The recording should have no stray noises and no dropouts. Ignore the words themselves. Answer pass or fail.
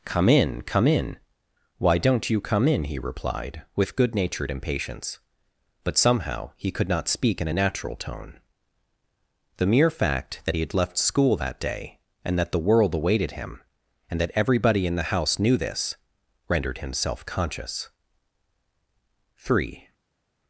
pass